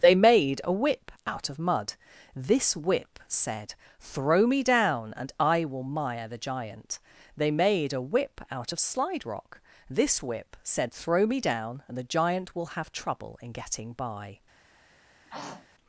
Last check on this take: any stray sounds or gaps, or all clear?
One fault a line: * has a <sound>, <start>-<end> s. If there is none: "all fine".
* has a throat clearing, 15.3-15.7 s